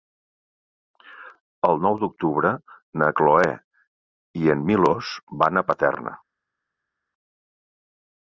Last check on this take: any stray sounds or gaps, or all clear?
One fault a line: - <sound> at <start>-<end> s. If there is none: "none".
none